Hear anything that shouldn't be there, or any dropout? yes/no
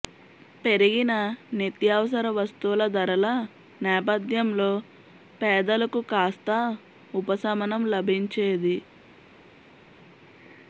no